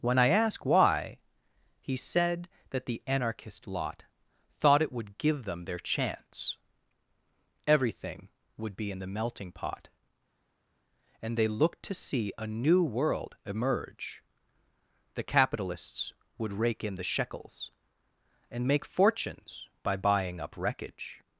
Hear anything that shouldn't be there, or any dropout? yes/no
no